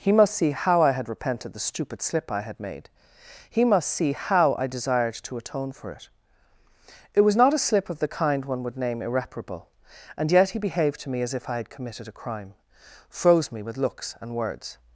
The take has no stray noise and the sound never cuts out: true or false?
true